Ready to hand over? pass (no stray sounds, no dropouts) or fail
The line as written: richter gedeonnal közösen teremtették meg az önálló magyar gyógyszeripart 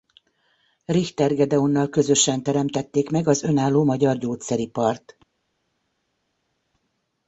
pass